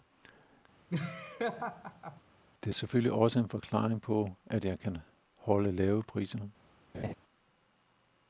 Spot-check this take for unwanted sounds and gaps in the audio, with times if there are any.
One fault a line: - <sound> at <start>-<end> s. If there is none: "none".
- laugh at 0.9-2.2 s
- laugh at 6.9-7.1 s